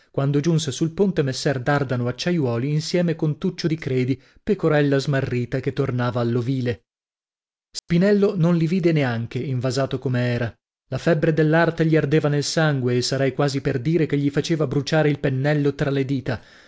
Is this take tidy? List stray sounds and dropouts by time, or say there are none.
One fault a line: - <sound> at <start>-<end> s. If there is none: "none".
- dropout at 7.8-7.9 s